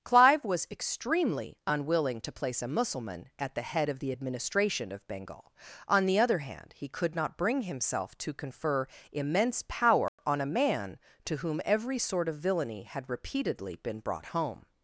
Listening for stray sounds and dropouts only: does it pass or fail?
fail